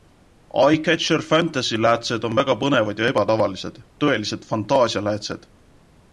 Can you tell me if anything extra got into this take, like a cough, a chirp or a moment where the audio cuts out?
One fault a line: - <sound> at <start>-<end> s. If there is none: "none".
none